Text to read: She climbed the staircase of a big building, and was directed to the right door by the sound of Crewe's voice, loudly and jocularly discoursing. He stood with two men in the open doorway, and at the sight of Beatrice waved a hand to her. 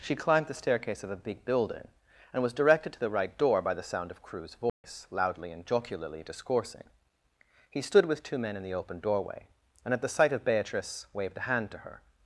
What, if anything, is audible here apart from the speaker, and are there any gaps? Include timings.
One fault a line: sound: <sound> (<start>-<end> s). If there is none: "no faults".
sound: dropout (4.7-4.8 s)